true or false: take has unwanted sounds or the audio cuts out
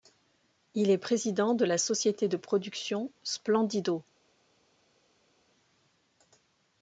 false